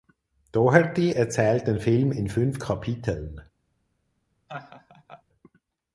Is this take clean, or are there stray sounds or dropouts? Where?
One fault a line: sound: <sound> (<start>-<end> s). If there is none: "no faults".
sound: laugh (4.5-5.2 s)